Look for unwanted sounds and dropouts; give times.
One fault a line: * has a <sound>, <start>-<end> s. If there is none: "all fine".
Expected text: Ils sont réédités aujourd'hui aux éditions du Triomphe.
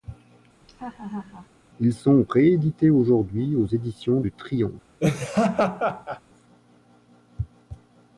* has a laugh, 0.6-1.5 s
* has a laugh, 5.0-6.2 s